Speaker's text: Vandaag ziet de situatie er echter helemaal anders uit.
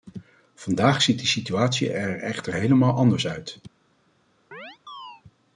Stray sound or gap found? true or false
true